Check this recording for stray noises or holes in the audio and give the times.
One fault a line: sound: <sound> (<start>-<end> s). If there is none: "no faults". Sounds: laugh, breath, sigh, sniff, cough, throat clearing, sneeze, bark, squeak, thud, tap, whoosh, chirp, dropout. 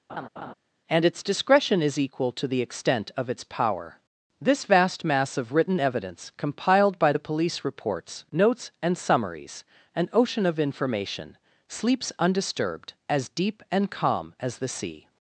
sound: laugh (0.1-0.5 s)